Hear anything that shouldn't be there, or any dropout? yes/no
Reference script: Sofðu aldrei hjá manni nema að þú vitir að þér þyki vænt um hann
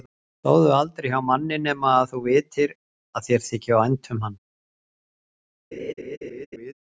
yes